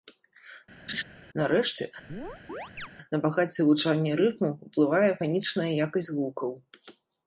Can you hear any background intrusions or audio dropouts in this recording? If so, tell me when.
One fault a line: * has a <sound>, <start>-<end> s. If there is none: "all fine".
* has a laugh, 0.9-1.0 s
* has a chirp, 2.1-2.9 s